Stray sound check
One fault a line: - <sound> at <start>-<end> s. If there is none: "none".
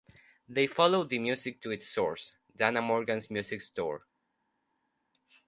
none